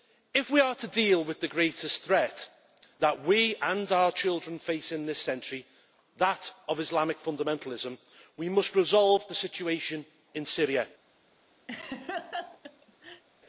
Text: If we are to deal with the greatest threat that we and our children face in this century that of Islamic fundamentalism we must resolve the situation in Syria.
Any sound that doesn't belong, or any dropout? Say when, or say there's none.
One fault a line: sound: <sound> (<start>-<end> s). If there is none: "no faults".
sound: laugh (11.7-13.2 s)